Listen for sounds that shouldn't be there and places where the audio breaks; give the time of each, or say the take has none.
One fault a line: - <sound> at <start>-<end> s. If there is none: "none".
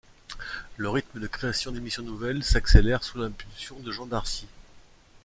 none